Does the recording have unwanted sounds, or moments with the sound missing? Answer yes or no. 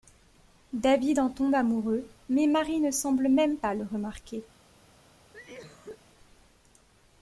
yes